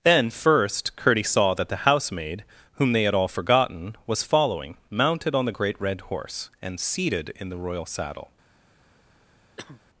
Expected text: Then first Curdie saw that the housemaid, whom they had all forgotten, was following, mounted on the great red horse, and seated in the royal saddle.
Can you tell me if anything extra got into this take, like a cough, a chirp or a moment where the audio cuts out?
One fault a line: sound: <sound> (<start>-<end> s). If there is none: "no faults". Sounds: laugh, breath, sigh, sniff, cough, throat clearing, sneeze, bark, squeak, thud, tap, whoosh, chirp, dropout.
sound: cough (9.6-9.8 s)